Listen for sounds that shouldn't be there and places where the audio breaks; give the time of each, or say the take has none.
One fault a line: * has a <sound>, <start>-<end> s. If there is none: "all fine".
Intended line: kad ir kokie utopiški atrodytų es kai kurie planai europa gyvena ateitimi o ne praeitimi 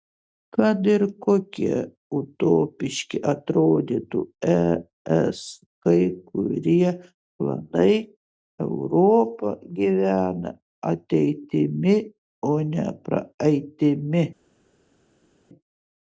all fine